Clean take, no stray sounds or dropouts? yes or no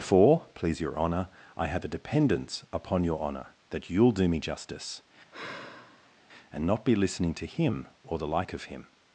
no